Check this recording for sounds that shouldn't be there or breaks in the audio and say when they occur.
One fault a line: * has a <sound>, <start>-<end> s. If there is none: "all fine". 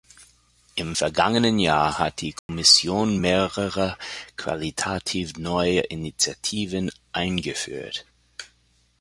* has a dropout, 2.4-2.5 s